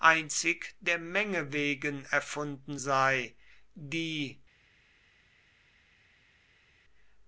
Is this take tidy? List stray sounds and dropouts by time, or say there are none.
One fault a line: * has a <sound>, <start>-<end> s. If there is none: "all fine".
all fine